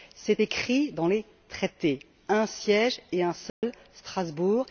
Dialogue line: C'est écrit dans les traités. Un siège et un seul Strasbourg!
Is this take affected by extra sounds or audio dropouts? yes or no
yes